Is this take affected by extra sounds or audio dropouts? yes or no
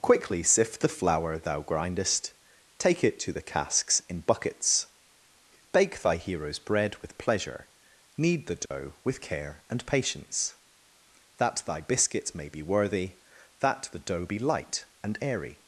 yes